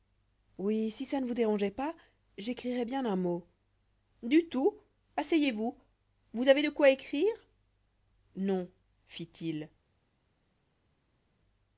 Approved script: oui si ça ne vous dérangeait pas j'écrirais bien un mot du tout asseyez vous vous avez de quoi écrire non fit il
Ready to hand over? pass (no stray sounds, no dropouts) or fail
pass